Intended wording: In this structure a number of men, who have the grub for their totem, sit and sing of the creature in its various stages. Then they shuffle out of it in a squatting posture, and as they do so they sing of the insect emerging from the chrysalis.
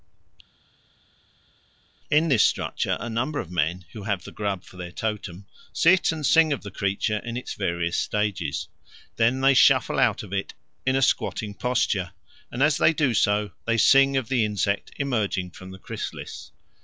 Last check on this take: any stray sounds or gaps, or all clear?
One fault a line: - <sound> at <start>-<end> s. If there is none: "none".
none